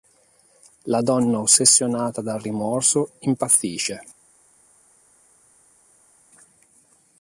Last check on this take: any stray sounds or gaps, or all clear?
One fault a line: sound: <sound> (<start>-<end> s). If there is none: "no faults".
no faults